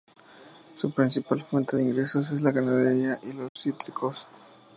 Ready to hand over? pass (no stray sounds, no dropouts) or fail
fail